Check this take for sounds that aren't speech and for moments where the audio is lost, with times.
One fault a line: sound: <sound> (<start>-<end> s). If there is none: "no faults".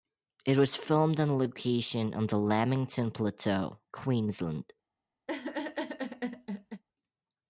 sound: laugh (5.3-6.8 s)